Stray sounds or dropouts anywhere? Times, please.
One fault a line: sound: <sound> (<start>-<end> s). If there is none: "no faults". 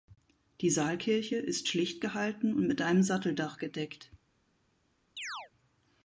sound: chirp (5.2-5.5 s)